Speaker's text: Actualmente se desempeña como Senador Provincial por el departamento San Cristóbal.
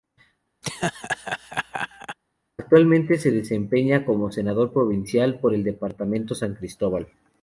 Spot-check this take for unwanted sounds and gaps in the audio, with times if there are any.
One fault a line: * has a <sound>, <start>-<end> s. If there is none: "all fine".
* has a laugh, 0.6-2.2 s